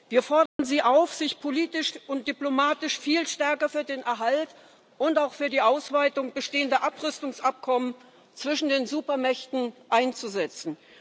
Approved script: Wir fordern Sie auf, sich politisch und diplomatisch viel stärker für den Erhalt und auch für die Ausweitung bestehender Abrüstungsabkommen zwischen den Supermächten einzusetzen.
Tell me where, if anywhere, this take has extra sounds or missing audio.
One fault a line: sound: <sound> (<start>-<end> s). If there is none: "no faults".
sound: dropout (0.5-0.6 s)